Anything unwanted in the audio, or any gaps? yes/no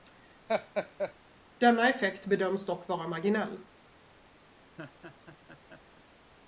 yes